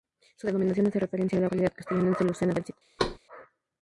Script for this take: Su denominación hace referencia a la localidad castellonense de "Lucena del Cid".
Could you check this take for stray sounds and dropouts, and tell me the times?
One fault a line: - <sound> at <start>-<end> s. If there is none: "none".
- thud at 3.0-3.2 s